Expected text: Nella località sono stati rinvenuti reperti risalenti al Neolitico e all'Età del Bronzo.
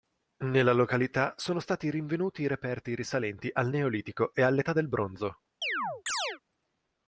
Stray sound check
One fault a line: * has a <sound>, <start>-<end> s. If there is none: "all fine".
* has a chirp, 5.6-6.4 s